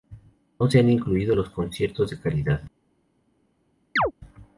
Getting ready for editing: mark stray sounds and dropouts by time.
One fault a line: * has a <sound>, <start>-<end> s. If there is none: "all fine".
* has a chirp, 4.0-4.1 s